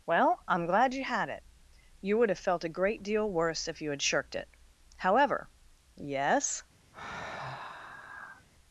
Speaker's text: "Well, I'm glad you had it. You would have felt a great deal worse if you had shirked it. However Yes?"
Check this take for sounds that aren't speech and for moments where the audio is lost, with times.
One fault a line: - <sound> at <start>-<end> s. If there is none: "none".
- sigh at 6.9-8.5 s